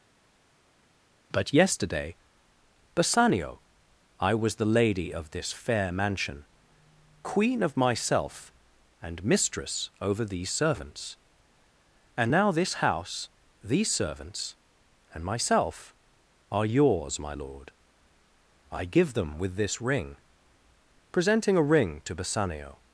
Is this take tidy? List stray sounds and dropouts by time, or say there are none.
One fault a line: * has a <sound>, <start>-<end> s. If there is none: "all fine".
all fine